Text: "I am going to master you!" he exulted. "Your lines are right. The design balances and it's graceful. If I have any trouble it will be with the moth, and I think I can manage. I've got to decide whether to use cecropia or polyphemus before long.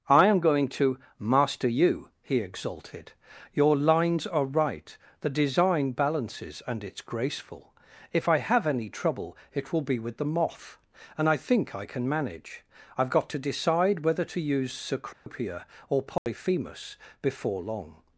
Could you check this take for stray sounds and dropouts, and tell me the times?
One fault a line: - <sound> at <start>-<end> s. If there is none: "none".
- dropout at 15.1-15.3 s
- dropout at 16.2-16.3 s